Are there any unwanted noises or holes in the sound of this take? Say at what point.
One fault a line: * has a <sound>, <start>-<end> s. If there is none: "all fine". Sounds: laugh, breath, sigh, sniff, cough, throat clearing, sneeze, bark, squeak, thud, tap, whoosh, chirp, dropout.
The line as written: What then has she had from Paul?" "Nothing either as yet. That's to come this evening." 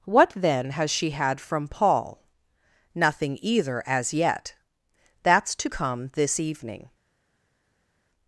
all fine